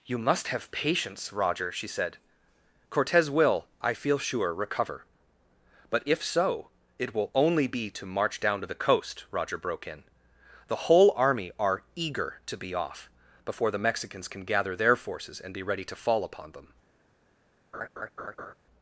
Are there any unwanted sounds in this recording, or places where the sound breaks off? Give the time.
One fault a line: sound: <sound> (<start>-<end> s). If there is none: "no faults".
sound: laugh (17.7-18.5 s)